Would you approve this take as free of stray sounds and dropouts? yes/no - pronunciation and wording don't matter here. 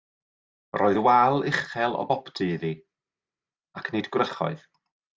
yes